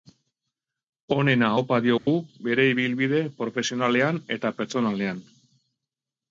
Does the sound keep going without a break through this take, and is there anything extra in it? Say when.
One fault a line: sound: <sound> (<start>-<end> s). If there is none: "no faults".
sound: dropout (2.0-2.1 s)